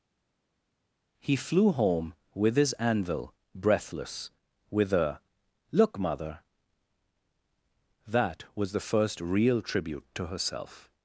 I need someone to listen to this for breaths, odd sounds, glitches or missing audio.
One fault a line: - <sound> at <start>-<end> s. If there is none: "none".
none